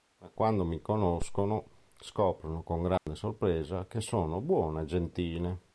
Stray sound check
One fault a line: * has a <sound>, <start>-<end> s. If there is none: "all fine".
* has a dropout, 3.0-3.1 s